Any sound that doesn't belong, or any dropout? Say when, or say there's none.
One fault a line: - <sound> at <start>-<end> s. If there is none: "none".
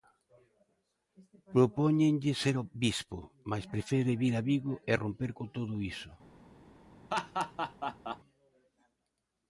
- laugh at 7.1-8.2 s